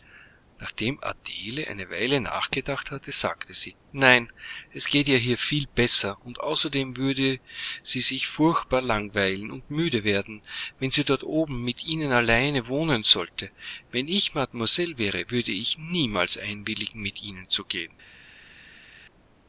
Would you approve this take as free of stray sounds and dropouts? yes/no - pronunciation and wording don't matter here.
yes